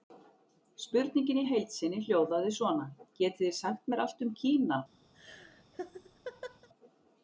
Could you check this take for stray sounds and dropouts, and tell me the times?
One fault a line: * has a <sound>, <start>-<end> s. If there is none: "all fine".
* has a laugh, 5.1-6.7 s